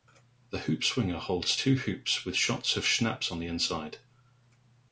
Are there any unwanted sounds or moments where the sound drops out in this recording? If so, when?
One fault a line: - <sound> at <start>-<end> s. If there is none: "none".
none